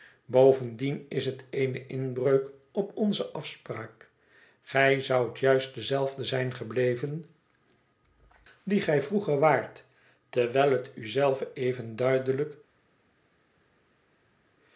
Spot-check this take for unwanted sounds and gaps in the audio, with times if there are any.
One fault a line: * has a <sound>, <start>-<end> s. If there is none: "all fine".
all fine